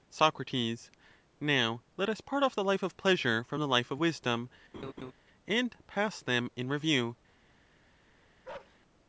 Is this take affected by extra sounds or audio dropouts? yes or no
yes